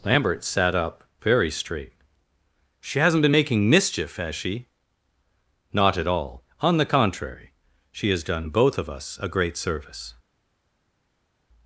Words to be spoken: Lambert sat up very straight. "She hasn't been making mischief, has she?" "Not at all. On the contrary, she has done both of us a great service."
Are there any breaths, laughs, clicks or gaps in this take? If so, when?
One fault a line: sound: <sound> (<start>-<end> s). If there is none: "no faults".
no faults